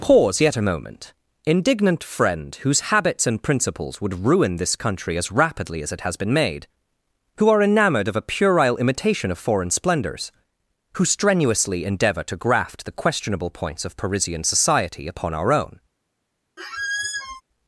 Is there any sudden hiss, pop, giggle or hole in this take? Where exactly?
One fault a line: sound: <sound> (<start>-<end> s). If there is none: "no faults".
sound: squeak (16.6-17.4 s)